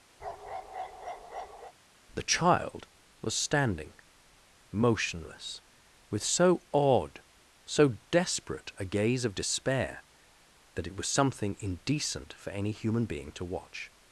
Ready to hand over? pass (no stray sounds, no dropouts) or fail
fail